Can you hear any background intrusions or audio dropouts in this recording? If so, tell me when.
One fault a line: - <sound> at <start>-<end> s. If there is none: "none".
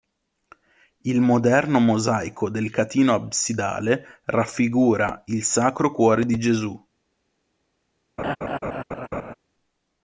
- laugh at 8.2-9.3 s